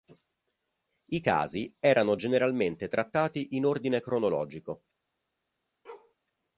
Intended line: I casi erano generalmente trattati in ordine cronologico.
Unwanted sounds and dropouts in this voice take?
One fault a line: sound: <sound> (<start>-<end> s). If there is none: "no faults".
sound: bark (5.8-6.1 s)